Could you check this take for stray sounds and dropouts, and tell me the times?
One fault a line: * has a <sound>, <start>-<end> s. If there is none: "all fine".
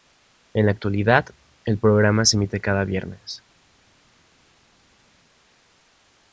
all fine